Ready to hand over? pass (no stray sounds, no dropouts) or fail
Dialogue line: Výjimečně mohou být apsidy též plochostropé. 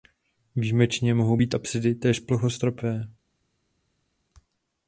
pass